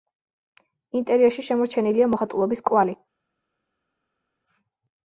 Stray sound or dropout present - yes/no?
no